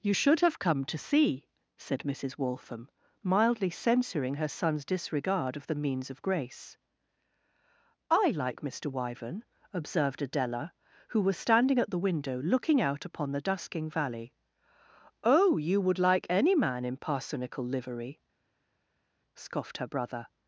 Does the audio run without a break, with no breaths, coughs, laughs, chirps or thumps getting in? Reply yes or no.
yes